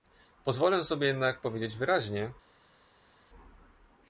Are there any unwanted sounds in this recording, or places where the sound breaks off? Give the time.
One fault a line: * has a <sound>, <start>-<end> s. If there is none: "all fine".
all fine